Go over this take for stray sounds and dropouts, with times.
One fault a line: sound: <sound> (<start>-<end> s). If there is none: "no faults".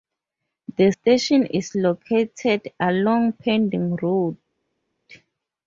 no faults